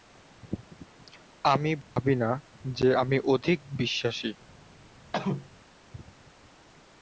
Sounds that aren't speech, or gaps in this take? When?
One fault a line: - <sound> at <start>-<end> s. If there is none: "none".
- dropout at 1.8-2.0 s
- cough at 5.1-5.5 s